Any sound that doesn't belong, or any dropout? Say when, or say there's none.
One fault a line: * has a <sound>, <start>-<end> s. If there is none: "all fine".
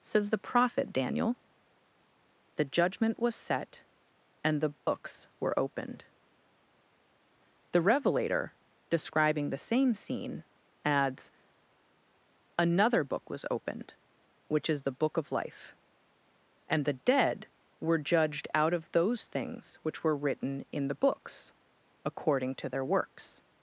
* has a dropout, 4.8-4.9 s